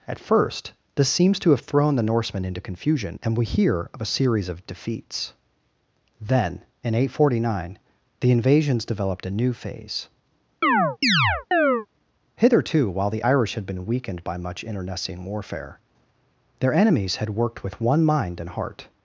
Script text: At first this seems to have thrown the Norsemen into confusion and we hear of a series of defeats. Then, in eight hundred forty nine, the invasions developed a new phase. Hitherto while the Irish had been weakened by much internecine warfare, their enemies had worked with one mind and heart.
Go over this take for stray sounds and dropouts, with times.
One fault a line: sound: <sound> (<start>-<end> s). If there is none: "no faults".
sound: chirp (10.6-11.9 s)